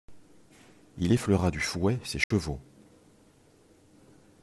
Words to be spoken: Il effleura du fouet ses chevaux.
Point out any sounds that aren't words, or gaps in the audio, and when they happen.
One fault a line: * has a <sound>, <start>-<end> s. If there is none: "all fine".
* has a dropout, 2.2-2.3 s